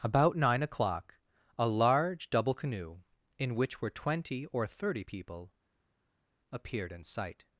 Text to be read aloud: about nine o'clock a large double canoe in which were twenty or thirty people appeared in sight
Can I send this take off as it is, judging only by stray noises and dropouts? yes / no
yes